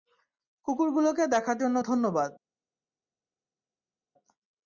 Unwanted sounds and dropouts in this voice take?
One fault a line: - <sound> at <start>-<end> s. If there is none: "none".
none